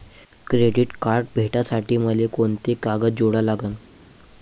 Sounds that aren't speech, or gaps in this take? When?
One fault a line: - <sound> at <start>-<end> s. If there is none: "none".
none